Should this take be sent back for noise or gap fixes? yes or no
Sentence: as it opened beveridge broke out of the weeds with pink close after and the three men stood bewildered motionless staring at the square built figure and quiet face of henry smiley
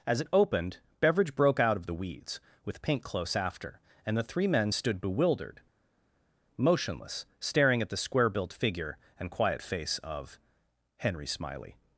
no